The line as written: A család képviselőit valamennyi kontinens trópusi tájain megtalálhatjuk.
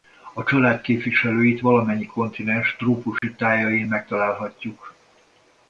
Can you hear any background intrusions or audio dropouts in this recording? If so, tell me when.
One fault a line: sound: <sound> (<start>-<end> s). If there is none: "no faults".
sound: dropout (3.2-3.2 s)